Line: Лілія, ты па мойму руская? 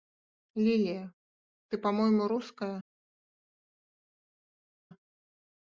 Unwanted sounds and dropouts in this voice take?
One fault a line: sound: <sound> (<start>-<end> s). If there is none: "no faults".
no faults